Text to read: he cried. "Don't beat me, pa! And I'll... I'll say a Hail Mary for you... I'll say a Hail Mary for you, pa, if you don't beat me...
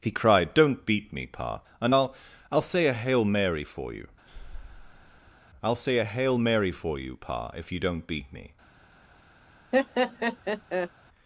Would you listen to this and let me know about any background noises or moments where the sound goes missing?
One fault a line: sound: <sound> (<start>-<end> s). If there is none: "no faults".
sound: breath (4.3-5.4 s)
sound: laugh (9.7-10.9 s)